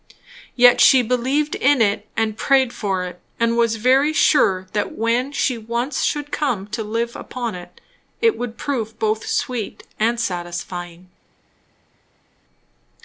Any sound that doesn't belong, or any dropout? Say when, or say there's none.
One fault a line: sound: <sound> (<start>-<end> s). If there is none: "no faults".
no faults